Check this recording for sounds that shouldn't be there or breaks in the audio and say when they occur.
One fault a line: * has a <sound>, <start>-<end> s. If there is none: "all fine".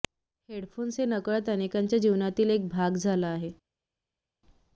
all fine